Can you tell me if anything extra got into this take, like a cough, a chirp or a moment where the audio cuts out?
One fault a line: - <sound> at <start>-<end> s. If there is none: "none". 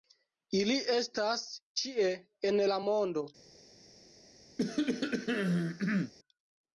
- cough at 4.6-6.1 s